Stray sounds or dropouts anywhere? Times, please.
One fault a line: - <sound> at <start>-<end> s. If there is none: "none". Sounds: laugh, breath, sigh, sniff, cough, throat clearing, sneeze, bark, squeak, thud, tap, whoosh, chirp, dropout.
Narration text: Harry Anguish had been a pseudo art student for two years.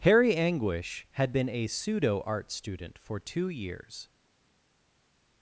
none